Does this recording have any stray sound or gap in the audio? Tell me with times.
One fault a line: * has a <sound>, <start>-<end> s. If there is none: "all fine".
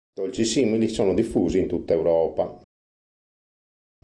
all fine